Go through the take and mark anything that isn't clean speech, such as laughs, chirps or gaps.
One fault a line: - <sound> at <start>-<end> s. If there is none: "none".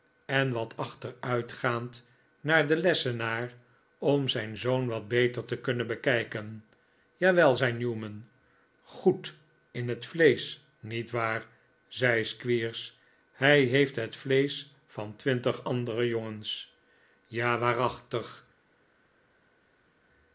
none